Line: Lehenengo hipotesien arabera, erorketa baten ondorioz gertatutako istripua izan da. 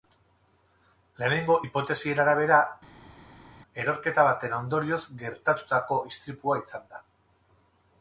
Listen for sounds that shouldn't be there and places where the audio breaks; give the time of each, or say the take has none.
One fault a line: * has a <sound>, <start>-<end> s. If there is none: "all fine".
all fine